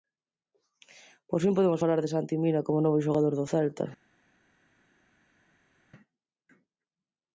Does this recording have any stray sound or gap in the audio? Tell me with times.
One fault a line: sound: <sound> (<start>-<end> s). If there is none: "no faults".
no faults